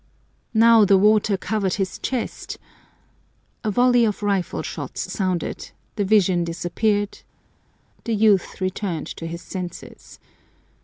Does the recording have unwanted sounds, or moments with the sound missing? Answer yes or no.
no